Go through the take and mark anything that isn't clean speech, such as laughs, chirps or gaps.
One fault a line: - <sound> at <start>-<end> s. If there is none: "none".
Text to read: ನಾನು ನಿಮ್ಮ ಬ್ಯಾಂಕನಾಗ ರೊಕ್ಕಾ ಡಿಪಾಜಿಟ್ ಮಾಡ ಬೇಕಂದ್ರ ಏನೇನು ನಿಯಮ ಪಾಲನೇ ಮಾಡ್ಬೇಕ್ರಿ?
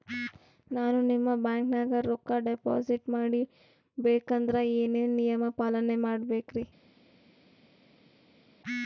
none